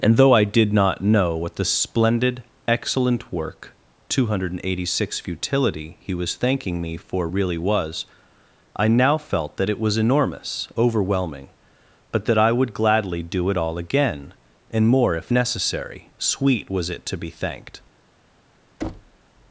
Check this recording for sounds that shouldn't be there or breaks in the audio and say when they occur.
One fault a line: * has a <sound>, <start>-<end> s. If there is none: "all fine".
* has a thud, 18.8-19.2 s